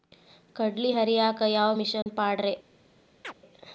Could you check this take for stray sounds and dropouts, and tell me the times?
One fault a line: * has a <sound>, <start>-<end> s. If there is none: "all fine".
* has a dropout, 2.0-2.1 s
* has a chirp, 3.2-3.3 s